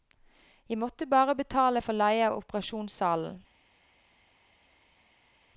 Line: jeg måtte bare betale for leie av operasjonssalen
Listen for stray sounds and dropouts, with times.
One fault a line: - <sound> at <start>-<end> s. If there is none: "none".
none